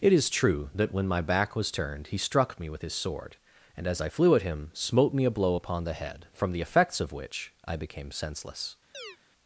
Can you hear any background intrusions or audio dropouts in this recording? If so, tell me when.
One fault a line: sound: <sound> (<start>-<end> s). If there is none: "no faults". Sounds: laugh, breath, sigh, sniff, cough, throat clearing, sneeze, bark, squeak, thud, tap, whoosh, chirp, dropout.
sound: chirp (8.9-9.2 s)